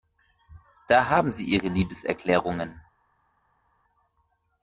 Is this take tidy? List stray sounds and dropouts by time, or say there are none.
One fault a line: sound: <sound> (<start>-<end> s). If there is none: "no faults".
no faults